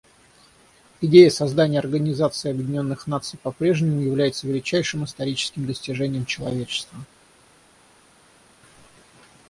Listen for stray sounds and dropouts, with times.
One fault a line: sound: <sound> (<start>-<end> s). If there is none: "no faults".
no faults